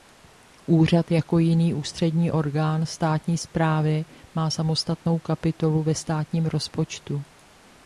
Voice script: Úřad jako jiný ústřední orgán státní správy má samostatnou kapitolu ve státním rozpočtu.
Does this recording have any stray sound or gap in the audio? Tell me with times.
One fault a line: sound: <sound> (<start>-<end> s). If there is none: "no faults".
no faults